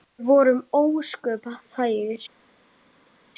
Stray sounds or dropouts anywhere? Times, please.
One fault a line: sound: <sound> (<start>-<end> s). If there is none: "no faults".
no faults